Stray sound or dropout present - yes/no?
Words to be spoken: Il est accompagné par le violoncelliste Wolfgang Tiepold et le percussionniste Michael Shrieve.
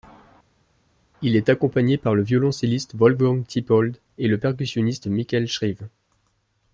no